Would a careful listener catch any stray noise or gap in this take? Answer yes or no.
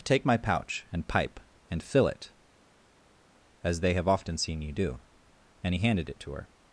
no